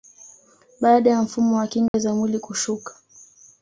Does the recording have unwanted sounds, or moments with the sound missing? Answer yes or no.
yes